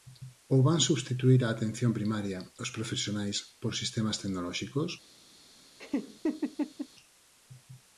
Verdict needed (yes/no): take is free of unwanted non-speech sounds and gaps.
no